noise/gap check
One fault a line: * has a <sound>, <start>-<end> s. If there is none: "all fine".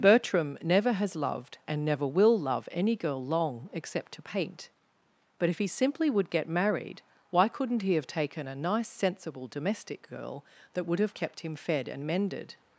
all fine